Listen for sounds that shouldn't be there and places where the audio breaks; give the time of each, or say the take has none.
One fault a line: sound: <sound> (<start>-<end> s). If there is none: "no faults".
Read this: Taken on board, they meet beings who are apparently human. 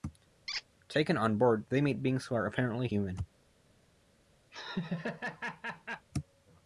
sound: squeak (0.5-0.6 s)
sound: laugh (4.5-6.1 s)